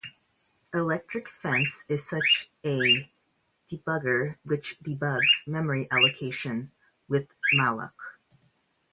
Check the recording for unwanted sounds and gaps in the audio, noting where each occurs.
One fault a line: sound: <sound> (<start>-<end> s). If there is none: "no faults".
no faults